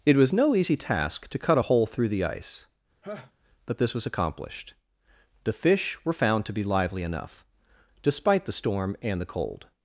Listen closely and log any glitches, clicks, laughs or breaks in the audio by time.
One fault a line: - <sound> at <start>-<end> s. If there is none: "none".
- laugh at 3.0-3.3 s